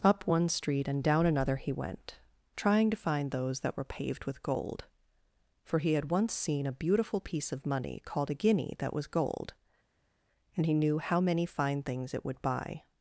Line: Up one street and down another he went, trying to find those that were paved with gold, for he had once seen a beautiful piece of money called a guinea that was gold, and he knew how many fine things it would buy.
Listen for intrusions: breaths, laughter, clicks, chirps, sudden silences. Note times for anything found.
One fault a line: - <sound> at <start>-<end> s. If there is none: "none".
none